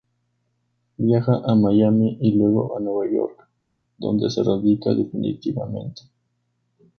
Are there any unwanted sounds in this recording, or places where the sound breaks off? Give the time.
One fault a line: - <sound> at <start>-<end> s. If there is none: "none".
none